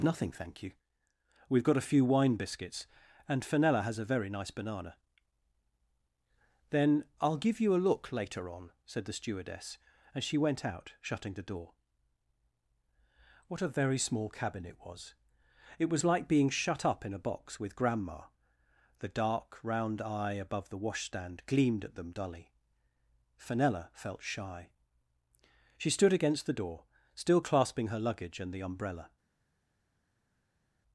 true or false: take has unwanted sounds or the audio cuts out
false